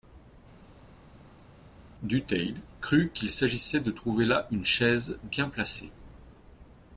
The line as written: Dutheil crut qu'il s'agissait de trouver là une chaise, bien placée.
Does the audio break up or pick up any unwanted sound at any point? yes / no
no